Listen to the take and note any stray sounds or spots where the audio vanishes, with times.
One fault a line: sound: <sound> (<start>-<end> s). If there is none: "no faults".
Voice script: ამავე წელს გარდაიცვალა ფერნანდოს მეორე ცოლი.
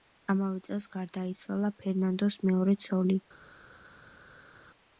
no faults